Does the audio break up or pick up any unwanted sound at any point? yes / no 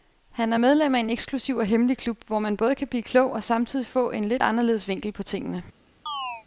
yes